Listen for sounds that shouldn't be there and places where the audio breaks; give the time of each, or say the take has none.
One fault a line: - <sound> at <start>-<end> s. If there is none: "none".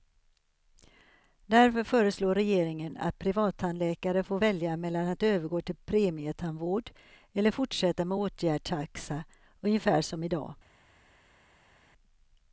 none